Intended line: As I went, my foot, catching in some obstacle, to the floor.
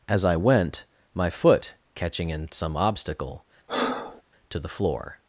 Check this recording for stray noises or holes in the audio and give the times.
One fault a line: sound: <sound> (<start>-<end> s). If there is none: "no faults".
sound: breath (3.7-4.2 s)